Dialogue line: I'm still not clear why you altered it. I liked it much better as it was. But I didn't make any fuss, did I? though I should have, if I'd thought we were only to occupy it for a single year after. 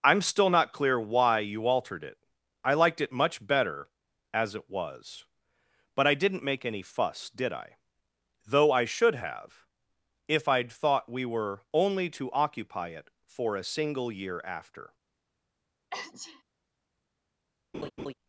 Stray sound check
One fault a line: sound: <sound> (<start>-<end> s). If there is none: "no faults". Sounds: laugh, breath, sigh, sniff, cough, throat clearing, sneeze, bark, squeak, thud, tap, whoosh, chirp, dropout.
sound: sneeze (15.9-16.4 s)
sound: laugh (17.7-18.1 s)